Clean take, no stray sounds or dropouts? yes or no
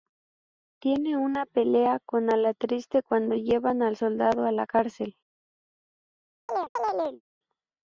no